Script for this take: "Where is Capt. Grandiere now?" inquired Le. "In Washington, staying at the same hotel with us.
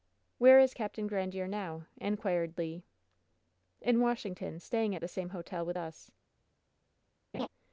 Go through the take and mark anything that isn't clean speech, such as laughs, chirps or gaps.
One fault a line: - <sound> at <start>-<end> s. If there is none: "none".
- laugh at 7.3-7.5 s